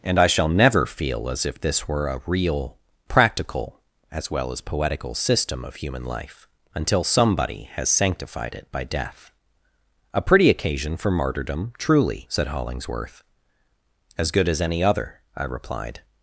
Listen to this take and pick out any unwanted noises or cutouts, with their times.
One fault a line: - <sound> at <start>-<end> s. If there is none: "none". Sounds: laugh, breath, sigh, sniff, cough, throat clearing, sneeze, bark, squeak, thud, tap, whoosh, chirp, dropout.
none